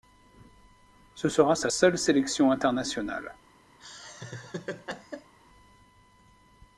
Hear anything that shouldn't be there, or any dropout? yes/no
yes